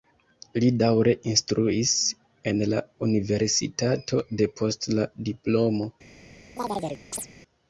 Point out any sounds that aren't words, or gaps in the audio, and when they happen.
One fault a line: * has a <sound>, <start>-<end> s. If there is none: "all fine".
* has a chirp, 6.6-7.3 s